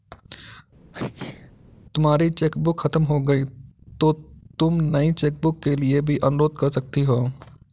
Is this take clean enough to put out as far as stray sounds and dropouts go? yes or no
no